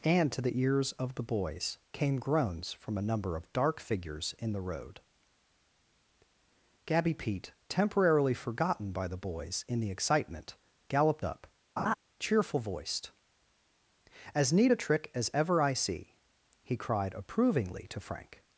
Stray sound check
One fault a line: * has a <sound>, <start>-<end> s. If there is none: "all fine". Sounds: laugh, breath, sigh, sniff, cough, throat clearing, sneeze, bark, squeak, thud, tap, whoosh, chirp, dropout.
* has a laugh, 11.8-11.9 s